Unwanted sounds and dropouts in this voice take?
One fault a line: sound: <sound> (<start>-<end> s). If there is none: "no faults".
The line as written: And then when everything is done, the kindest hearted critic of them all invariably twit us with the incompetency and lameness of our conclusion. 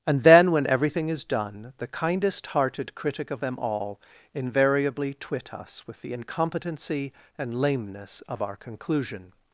no faults